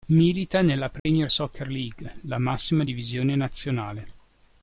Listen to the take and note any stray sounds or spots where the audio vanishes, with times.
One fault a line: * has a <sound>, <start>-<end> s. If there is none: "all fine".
* has a dropout, 1.0-1.1 s